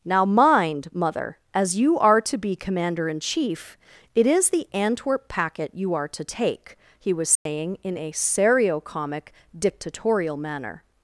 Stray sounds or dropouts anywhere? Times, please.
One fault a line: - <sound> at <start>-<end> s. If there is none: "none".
- dropout at 7.4-7.5 s